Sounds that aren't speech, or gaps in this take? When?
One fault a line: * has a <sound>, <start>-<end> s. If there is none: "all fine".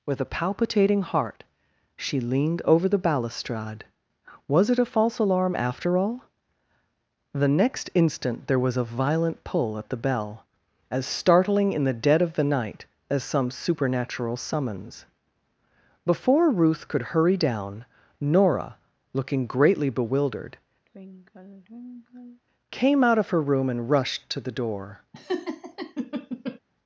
* has a sigh, 20.9-22.4 s
* has a laugh, 25.1-26.6 s